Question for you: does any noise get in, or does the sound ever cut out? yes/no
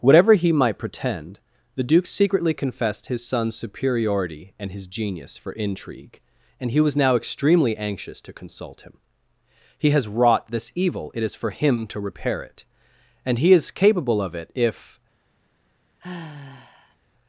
yes